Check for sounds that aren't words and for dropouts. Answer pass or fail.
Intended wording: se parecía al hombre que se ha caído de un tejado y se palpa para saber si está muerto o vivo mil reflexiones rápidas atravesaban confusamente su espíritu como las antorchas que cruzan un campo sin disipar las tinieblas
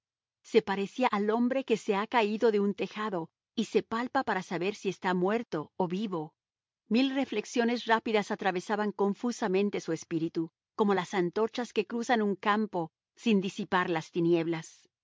pass